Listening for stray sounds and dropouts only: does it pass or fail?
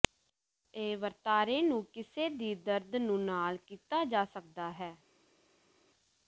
pass